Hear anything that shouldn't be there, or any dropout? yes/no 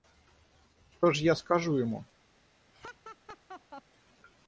yes